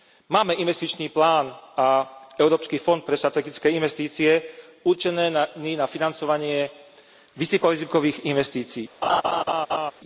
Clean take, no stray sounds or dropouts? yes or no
no